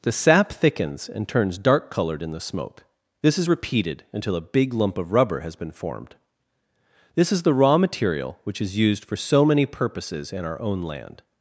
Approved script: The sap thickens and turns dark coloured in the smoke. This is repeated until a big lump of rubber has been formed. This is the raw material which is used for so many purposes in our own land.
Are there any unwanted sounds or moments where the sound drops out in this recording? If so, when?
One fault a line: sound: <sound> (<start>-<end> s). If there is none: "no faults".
no faults